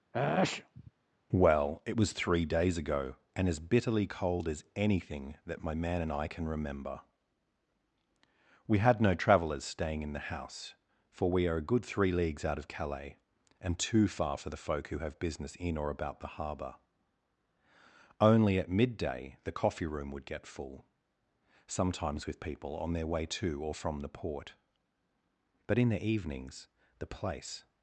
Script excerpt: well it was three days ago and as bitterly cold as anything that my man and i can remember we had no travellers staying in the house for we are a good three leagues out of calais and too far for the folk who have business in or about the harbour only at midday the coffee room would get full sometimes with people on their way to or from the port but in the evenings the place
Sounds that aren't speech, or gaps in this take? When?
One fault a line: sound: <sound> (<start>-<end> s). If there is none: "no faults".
sound: sneeze (0.1-0.9 s)